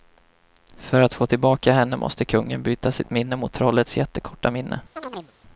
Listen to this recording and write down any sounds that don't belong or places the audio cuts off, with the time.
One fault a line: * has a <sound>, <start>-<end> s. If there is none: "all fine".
* has a chirp, 5.0-5.3 s